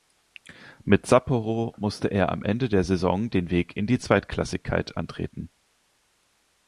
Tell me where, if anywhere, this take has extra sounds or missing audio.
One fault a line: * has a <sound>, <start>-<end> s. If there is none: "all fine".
all fine